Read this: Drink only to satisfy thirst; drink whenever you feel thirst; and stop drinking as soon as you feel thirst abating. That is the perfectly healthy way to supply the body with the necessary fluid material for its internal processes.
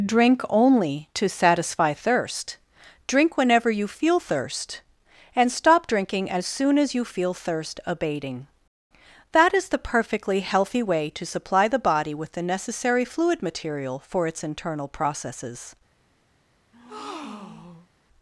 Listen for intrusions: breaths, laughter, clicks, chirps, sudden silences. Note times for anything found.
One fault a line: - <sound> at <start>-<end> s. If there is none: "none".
- breath at 16.7-17.9 s